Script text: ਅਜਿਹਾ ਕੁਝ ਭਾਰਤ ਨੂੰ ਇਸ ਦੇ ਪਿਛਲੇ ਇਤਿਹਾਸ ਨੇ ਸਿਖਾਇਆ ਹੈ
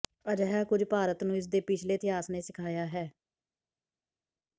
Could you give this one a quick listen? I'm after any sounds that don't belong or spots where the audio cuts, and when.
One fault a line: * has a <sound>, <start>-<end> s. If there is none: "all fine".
all fine